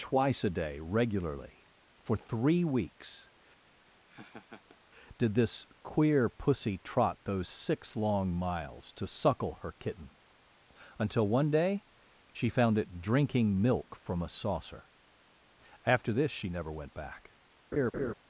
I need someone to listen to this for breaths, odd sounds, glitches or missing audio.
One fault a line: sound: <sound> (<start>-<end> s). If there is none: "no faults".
sound: laugh (3.7-4.8 s)
sound: laugh (17.7-18.1 s)